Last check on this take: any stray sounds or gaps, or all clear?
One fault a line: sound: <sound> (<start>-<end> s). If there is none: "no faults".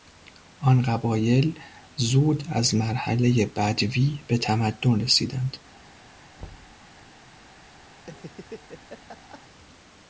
sound: thud (6.4-6.8 s)
sound: laugh (8.0-9.4 s)